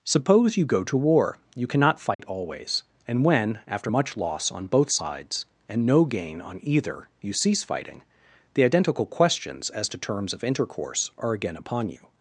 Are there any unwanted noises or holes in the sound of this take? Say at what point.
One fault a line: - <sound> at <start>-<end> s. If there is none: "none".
- dropout at 2.1-2.2 s